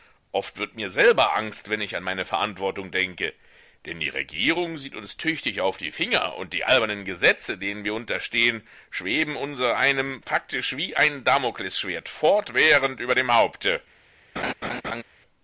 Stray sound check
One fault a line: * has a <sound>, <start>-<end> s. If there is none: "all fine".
* has a laugh, 14.4-15.0 s